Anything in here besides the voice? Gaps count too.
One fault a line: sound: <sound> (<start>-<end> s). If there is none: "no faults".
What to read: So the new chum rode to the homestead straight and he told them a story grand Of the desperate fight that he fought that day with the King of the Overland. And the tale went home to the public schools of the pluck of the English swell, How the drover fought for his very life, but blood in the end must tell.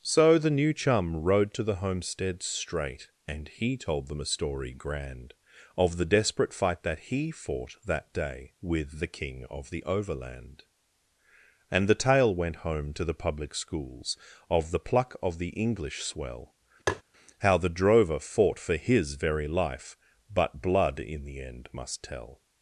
sound: tap (16.9-17.0 s)